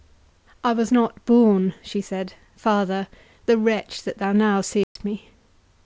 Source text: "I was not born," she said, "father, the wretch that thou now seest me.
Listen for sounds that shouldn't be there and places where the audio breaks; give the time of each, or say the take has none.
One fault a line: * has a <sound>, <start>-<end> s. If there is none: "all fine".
* has a dropout, 4.8-5.0 s